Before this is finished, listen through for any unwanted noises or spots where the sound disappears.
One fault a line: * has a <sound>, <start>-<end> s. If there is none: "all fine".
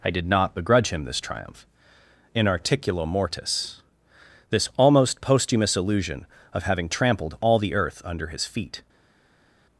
all fine